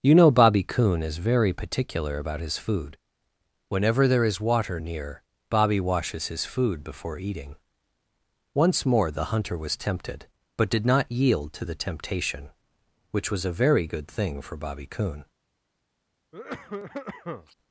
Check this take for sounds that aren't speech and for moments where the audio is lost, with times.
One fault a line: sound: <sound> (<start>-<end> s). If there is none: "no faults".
sound: cough (16.3-17.6 s)